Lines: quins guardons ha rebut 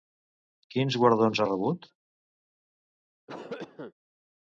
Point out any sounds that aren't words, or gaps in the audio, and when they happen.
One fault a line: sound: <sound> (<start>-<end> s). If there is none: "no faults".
sound: cough (3.3-3.9 s)